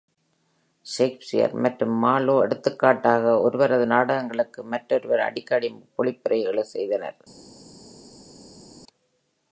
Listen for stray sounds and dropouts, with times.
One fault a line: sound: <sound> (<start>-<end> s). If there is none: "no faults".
no faults